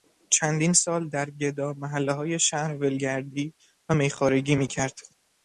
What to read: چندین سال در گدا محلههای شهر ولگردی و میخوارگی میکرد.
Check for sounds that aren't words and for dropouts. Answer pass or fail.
pass